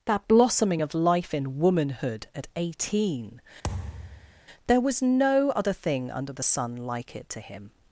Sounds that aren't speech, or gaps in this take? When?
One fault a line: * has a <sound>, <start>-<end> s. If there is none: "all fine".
* has a thud, 3.6-4.4 s